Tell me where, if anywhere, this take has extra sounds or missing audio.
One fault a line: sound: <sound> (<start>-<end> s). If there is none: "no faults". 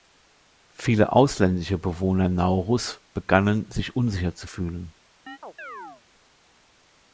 sound: chirp (5.3-6.0 s)